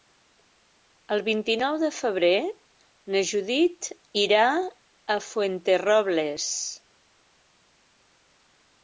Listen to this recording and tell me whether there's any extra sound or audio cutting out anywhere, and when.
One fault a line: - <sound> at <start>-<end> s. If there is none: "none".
none